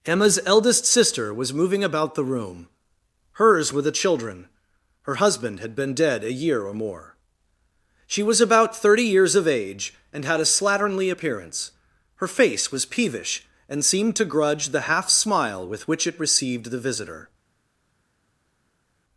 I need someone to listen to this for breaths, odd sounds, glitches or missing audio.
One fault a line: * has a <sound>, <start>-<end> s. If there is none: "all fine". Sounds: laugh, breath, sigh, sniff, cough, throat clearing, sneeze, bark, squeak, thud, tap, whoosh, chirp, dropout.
all fine